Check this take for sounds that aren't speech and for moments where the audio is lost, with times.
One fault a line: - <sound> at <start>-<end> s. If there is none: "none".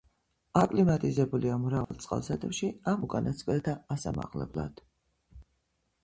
- dropout at 1.8-1.9 s